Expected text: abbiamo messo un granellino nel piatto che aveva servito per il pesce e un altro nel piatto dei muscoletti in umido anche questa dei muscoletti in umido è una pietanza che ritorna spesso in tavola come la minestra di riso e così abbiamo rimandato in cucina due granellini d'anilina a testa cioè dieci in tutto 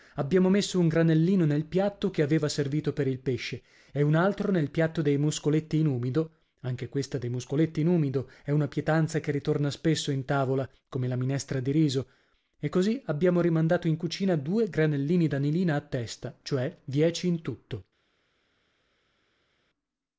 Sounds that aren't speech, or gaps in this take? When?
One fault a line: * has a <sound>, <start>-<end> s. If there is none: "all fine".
all fine